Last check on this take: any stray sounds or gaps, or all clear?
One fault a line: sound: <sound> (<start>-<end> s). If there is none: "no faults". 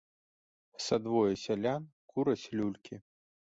no faults